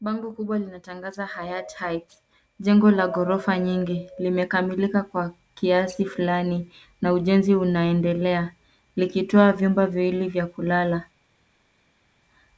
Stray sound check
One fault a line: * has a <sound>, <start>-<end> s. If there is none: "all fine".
all fine